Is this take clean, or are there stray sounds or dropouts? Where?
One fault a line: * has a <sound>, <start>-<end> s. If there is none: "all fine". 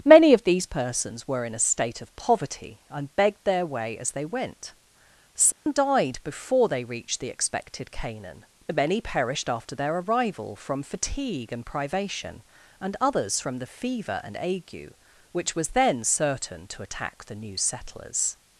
* has a dropout, 5.5-5.7 s